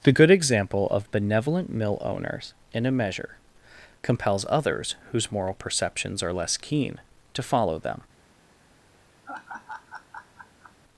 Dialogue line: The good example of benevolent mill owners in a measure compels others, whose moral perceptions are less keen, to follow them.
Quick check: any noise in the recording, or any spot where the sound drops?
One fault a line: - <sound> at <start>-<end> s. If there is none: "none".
- laugh at 9.2-10.8 s